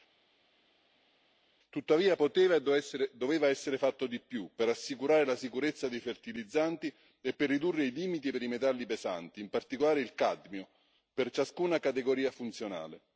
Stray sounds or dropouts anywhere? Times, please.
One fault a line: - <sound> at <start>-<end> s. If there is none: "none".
none